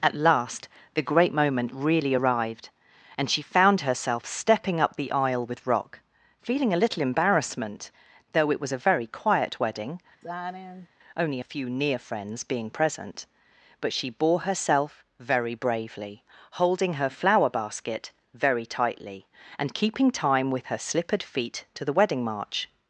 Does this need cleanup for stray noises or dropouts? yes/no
yes